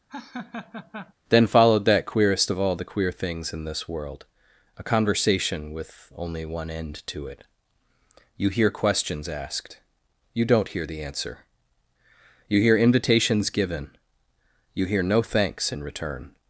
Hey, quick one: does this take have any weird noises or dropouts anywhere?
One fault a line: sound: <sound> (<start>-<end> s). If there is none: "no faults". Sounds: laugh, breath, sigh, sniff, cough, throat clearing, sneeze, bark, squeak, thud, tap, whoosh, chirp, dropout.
sound: laugh (0.1-1.1 s)